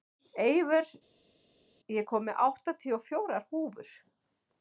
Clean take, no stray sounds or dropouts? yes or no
yes